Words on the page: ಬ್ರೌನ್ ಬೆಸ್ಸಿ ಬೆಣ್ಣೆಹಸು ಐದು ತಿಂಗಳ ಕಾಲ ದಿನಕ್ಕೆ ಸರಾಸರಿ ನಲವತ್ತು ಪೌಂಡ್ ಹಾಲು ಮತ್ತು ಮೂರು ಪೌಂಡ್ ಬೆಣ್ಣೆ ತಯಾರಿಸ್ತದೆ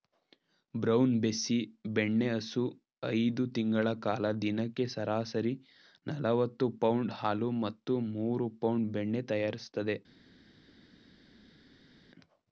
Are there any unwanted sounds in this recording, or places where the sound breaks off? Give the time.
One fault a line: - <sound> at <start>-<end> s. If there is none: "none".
none